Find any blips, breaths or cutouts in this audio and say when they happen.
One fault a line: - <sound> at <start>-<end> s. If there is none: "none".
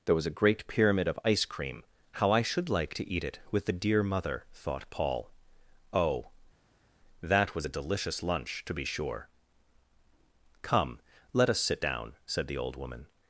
none